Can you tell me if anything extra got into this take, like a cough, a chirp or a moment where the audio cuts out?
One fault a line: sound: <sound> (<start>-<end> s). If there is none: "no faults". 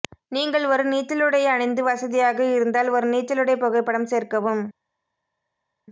no faults